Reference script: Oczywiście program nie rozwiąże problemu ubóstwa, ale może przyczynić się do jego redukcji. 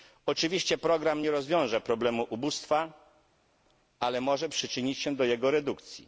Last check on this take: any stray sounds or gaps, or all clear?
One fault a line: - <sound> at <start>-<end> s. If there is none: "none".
none